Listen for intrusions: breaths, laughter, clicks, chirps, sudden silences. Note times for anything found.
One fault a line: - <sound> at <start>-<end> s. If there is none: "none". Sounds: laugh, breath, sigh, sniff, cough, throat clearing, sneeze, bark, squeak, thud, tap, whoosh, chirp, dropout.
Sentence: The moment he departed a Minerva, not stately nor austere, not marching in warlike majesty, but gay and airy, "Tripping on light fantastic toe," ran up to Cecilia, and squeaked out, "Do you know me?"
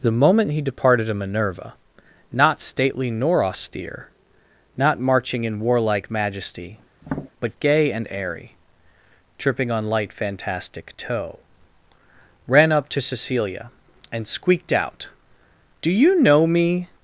- tap at 7.0-7.3 s